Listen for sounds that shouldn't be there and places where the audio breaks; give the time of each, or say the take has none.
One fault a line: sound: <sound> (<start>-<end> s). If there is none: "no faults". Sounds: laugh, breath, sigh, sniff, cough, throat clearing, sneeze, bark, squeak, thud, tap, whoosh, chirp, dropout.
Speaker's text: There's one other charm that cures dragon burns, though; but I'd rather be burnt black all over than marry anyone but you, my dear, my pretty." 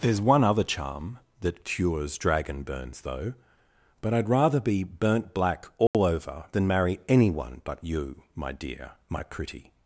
sound: dropout (5.9-5.9 s)